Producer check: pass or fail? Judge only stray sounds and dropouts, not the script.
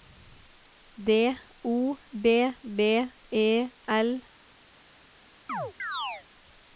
fail